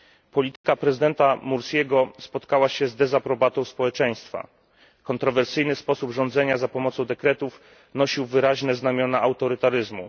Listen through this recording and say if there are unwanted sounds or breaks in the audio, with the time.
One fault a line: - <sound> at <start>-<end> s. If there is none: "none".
- dropout at 0.6-0.6 s